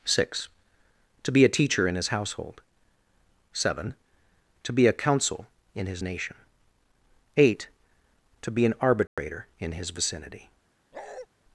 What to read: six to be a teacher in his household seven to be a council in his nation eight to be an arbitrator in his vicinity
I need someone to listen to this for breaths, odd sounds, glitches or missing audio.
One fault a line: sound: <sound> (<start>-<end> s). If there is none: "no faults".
sound: dropout (9.1-9.2 s)
sound: bark (10.9-11.3 s)